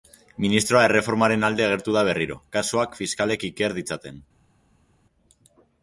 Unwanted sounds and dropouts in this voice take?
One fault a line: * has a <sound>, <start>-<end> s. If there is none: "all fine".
all fine